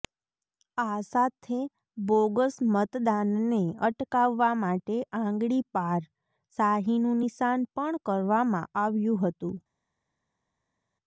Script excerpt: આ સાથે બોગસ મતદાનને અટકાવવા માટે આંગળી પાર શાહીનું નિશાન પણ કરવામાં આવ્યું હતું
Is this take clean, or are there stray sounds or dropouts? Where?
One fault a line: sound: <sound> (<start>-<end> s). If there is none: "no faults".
no faults